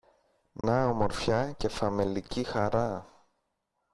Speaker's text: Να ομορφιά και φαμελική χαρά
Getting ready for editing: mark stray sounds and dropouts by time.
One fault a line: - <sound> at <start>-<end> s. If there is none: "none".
- dropout at 0.6-0.6 s